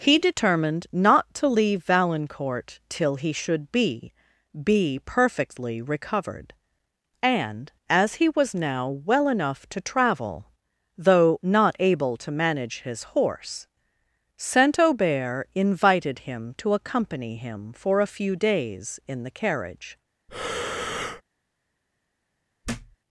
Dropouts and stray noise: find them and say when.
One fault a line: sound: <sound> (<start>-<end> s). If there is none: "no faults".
sound: breath (20.3-21.2 s)
sound: thud (22.6-23.0 s)